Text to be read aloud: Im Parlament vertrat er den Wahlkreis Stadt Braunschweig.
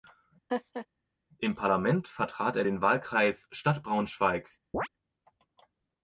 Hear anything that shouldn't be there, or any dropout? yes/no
yes